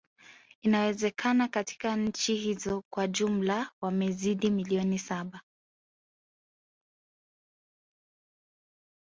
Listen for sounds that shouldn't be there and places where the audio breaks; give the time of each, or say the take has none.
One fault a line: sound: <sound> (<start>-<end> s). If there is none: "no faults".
no faults